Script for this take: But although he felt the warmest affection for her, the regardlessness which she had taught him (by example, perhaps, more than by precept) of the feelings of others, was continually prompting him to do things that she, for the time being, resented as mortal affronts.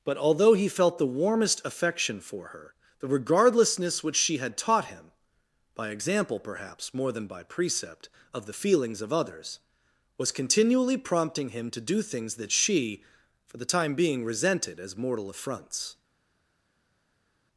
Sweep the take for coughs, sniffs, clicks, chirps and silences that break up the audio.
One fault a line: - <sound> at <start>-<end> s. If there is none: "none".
none